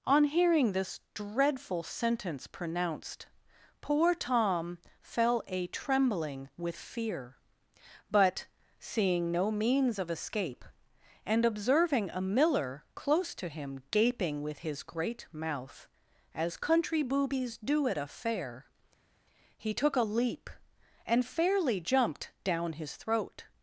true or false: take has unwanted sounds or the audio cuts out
false